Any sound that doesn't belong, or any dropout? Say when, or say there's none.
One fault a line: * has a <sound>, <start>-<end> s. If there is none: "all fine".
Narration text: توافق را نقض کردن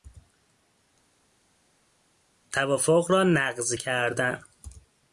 all fine